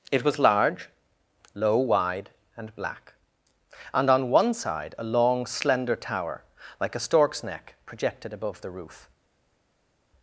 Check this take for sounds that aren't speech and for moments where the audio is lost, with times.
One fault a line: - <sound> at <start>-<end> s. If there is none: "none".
none